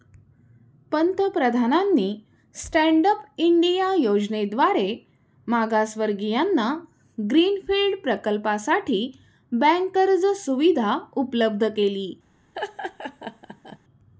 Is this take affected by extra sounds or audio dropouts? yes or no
yes